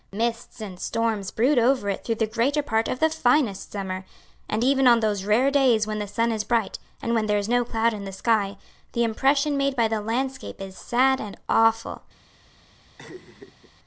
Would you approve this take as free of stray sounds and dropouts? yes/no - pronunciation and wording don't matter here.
no